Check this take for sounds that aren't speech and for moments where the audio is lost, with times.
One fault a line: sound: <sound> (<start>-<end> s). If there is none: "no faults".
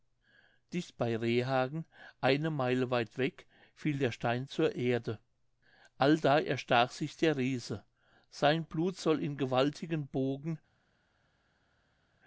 no faults